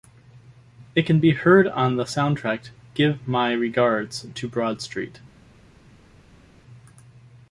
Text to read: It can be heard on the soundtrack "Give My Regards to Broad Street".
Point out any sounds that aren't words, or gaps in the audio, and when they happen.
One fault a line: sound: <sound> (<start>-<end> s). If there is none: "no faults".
no faults